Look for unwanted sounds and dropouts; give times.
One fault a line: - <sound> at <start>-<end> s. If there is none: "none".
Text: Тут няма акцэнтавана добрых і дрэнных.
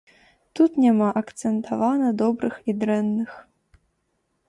none